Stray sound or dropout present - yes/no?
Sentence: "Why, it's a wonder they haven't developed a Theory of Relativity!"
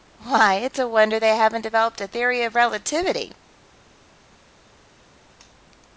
no